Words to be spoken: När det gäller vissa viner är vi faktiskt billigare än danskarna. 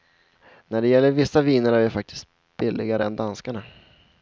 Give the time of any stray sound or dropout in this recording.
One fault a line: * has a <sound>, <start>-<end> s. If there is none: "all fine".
all fine